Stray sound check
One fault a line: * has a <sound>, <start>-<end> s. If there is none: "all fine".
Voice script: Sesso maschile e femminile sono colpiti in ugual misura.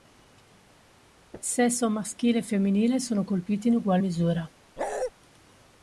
* has a bark, 4.8-5.1 s